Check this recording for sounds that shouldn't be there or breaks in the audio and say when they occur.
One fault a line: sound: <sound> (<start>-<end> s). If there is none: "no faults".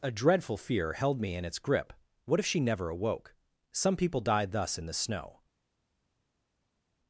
no faults